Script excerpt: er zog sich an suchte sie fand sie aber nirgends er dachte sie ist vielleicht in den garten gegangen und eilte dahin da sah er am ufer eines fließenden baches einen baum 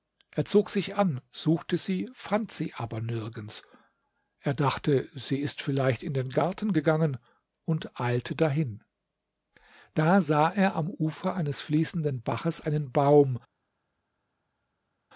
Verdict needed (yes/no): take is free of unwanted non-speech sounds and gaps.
yes